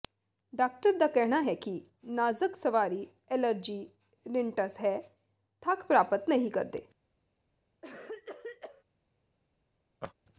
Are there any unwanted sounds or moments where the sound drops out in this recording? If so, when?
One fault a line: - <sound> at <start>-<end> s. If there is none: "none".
- cough at 7.8-8.8 s
- laugh at 10.0-10.1 s